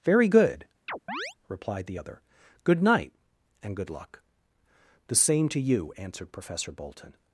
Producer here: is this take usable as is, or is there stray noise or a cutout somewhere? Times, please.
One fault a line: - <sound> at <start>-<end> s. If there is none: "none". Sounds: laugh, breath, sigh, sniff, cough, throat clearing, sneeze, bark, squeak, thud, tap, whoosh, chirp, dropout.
- chirp at 0.9-1.3 s